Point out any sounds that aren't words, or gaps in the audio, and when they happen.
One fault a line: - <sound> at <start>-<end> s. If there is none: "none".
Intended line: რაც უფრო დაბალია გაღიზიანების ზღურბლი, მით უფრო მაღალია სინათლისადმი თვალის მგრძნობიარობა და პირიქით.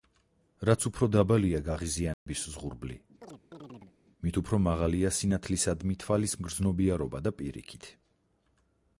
- dropout at 2.1-2.3 s
- chirp at 3.2-4.0 s